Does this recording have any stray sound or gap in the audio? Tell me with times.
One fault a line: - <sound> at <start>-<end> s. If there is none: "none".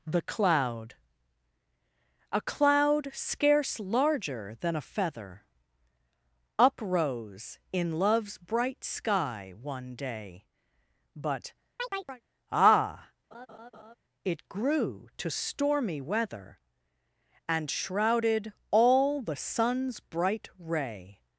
- chirp at 11.8-12.2 s
- laugh at 13.3-14.0 s